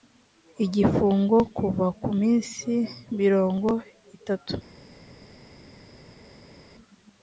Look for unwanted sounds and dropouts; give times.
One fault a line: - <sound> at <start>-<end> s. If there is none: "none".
none